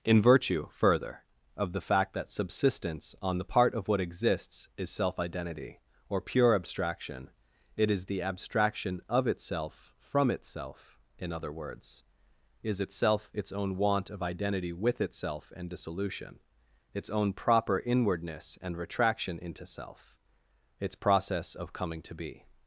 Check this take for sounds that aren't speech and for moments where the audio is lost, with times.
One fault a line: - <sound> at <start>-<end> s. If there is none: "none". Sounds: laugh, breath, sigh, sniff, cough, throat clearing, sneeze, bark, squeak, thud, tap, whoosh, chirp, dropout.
none